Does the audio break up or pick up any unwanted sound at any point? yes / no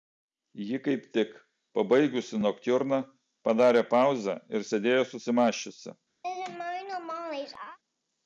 yes